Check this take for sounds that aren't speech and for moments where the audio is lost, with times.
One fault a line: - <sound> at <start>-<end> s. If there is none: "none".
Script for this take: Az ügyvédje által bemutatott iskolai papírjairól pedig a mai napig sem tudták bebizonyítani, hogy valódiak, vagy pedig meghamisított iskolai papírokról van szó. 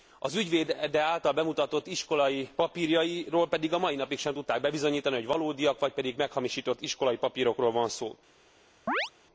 - chirp at 8.9-9.1 s